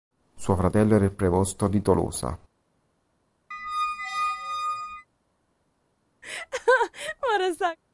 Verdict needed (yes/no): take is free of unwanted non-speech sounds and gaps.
no